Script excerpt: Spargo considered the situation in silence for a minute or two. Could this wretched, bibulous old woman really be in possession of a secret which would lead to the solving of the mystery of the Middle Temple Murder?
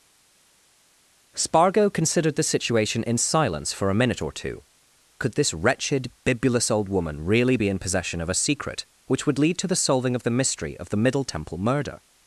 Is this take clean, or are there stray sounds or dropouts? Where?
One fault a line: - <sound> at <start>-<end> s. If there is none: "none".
none